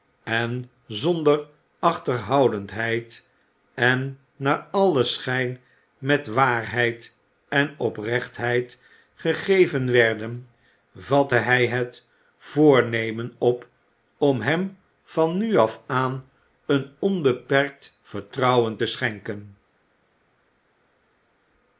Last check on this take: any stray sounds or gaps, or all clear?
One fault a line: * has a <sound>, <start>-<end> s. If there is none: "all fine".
all fine